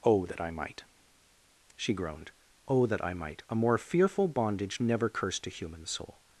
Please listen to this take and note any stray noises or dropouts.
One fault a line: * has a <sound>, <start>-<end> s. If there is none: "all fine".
all fine